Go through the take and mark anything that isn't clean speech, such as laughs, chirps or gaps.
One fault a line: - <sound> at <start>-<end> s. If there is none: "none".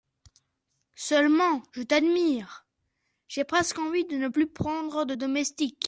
none